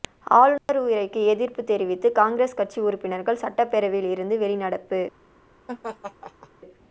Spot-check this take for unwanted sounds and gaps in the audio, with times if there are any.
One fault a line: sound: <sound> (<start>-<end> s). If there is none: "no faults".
sound: dropout (0.6-0.7 s)
sound: laugh (5.7-6.5 s)